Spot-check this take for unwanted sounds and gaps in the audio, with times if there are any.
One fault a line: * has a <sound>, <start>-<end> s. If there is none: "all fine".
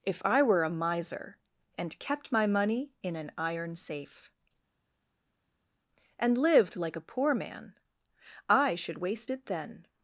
all fine